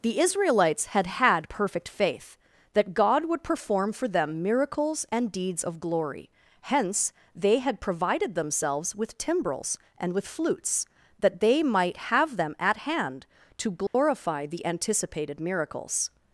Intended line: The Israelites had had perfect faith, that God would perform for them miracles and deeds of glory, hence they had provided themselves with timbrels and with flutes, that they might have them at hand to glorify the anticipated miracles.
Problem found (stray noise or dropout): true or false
true